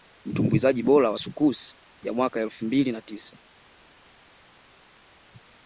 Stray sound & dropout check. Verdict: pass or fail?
pass